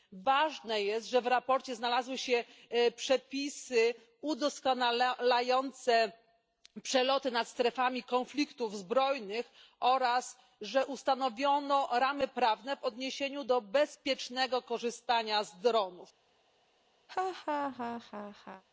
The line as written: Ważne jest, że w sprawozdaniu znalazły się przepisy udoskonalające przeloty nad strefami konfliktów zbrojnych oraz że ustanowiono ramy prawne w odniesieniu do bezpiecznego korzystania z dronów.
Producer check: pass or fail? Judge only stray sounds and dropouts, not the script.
fail